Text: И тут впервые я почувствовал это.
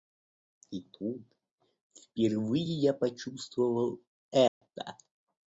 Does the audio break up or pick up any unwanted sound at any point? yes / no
yes